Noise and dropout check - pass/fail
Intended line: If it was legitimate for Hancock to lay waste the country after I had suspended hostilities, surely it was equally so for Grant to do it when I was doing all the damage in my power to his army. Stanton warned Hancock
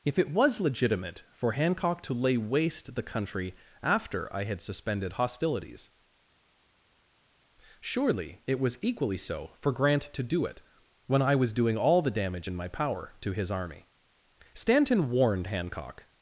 pass